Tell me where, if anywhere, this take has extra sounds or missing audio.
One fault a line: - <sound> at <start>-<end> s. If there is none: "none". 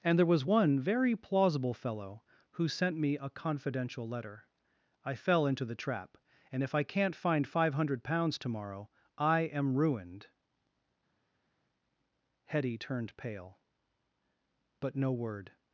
none